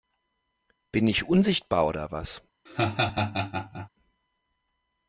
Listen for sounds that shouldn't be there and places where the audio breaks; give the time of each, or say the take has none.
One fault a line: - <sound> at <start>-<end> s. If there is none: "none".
- laugh at 2.7-3.9 s